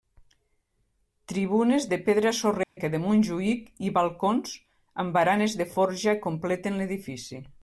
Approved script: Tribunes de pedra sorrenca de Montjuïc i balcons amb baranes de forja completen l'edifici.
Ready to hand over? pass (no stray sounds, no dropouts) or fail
fail